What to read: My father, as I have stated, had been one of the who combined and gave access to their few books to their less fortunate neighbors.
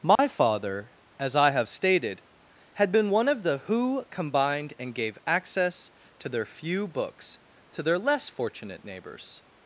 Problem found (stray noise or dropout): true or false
true